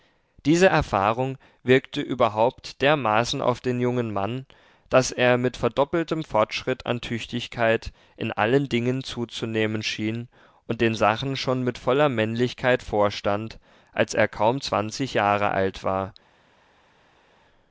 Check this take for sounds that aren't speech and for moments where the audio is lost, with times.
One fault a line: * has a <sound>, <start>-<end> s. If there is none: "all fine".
all fine